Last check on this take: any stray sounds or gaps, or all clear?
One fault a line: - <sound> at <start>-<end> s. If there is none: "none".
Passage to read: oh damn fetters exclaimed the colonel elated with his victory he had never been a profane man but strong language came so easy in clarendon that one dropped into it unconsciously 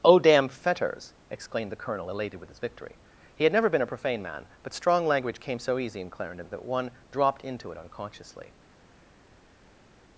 none